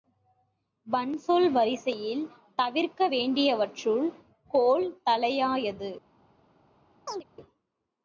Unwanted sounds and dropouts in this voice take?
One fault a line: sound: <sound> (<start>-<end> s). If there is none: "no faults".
sound: chirp (7.1-7.2 s)